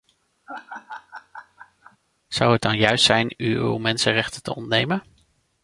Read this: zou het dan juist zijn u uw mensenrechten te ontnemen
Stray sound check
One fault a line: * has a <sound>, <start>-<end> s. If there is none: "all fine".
* has a laugh, 0.5-2.0 s